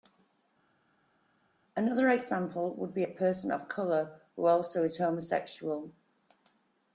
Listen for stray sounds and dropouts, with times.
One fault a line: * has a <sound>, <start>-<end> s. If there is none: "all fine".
all fine